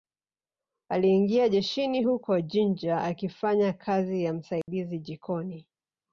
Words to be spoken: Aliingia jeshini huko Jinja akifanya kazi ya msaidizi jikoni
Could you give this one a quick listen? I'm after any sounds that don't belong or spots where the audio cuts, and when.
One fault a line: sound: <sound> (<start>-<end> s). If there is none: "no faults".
sound: dropout (4.6-4.7 s)